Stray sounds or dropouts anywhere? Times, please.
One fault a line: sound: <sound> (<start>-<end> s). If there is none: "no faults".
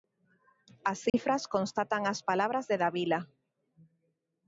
sound: dropout (1.1-1.1 s)